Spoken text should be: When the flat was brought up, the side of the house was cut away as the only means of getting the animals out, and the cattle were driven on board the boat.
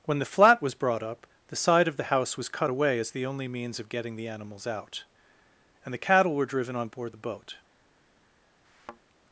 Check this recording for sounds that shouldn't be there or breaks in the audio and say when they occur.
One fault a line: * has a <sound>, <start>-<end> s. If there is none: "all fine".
* has a thud, 8.6-9.0 s